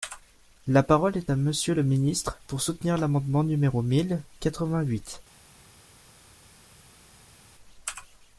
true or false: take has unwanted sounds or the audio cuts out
false